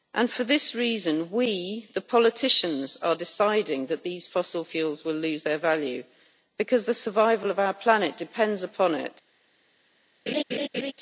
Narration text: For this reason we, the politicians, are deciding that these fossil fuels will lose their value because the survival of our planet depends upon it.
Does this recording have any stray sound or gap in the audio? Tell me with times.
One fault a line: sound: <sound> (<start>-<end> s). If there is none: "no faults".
sound: laugh (10.3-10.9 s)